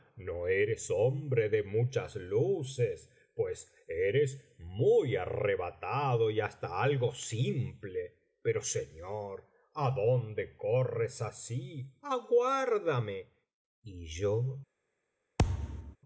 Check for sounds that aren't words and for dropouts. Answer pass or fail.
fail